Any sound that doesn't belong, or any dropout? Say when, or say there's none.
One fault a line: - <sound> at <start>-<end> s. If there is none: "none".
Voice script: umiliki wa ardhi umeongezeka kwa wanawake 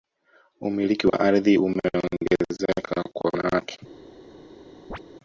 - dropout at 1.1-1.1 s
- chirp at 4.9-5.0 s